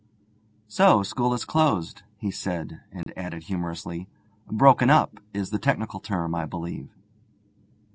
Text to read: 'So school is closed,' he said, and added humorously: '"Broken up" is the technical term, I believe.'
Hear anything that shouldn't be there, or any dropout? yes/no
yes